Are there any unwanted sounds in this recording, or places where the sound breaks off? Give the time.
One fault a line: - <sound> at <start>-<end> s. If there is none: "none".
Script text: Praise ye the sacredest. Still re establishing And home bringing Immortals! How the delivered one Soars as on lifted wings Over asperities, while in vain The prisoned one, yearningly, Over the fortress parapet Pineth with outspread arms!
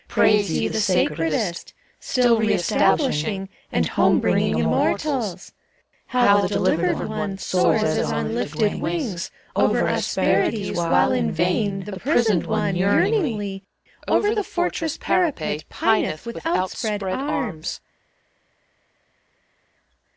none